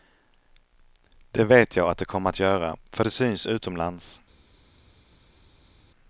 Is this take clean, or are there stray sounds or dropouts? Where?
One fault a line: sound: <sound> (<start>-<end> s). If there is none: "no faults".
no faults